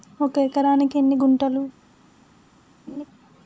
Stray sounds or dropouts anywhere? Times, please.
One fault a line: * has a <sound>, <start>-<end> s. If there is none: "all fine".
* has a laugh, 2.9-3.1 s